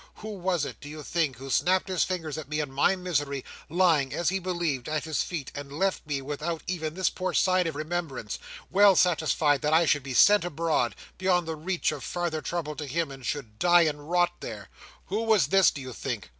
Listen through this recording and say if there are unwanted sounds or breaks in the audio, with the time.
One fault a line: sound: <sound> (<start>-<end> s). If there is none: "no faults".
no faults